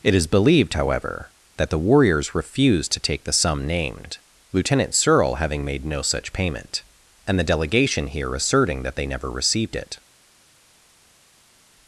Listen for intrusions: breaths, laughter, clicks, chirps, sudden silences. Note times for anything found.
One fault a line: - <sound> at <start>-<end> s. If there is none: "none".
none